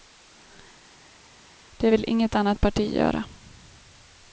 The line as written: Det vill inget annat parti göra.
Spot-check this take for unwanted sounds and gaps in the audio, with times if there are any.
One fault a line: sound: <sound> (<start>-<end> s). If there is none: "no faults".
no faults